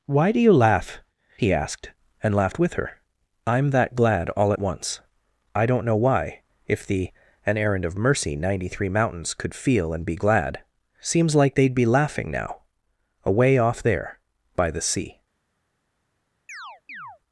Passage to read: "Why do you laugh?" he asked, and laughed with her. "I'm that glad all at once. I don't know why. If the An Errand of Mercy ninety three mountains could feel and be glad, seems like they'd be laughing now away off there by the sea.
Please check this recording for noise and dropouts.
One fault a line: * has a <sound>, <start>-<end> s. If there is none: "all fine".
* has a chirp, 16.5-17.2 s